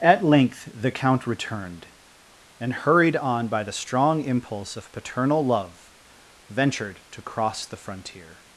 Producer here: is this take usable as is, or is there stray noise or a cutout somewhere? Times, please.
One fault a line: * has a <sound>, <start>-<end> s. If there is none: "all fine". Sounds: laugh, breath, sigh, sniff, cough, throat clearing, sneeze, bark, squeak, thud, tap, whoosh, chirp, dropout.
all fine